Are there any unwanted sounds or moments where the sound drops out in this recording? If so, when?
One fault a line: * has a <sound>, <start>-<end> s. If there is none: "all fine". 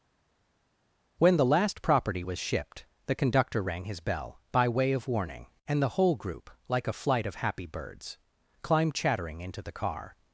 all fine